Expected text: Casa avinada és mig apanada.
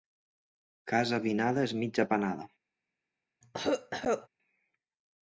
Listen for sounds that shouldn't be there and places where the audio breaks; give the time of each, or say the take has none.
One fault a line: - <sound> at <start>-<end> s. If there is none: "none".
- cough at 3.4-4.3 s